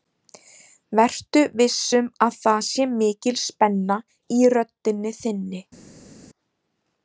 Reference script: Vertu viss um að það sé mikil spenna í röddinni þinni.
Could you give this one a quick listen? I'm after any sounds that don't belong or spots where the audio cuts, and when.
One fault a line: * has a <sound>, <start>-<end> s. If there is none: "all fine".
all fine